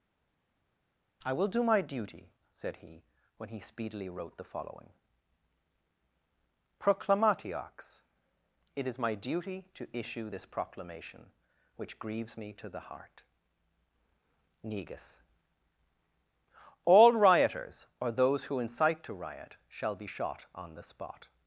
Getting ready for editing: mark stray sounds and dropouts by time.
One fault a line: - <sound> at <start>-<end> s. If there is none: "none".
none